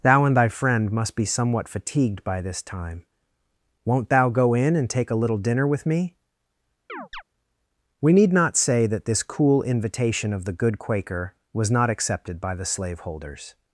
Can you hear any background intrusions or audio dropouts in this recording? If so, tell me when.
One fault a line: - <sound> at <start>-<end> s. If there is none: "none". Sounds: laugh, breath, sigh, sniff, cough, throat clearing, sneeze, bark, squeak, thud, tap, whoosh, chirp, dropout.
- chirp at 6.9-7.2 s